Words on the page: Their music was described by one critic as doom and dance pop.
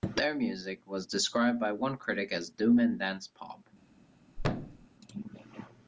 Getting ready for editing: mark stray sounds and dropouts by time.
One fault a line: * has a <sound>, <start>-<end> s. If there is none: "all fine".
* has a thud, 4.4-4.9 s